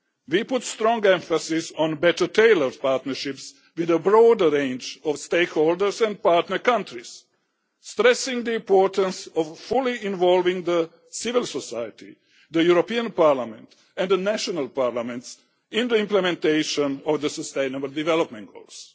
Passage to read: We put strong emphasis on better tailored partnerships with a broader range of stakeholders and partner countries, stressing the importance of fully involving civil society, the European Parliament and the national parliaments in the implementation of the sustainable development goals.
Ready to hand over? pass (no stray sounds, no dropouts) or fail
pass